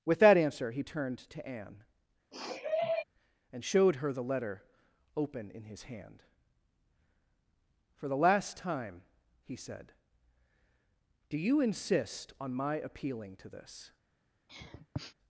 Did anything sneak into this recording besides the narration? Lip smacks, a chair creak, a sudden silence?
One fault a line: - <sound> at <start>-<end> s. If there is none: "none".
- sniff at 2.3-3.0 s
- sniff at 14.5-15.1 s